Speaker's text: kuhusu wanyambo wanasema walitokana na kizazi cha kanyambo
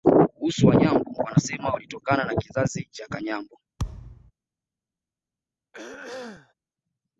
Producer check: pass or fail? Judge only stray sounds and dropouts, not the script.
fail